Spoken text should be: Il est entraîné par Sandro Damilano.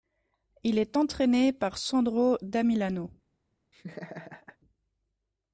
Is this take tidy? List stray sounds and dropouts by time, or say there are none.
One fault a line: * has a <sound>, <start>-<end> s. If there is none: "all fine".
* has a laugh, 3.7-4.6 s